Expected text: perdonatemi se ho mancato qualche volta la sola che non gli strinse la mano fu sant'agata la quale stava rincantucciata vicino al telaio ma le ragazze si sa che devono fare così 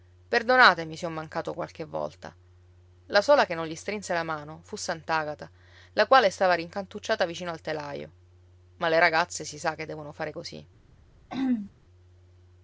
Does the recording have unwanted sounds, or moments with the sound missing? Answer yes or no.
yes